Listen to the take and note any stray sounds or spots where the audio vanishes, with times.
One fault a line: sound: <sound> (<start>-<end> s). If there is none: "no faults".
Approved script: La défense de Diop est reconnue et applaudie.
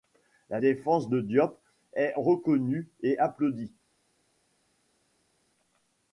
no faults